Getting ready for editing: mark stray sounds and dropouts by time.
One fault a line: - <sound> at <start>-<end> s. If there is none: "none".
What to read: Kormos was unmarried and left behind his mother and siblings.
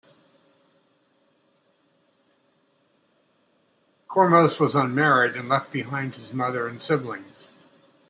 none